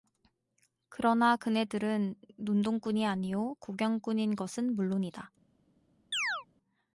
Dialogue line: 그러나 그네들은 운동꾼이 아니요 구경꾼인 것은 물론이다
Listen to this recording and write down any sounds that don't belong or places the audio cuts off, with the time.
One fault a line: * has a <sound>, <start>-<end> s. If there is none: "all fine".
* has a chirp, 6.1-6.5 s